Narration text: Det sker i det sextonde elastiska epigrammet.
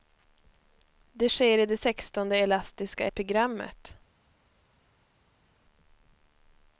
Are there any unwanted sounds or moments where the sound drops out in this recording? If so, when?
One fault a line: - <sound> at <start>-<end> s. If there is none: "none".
none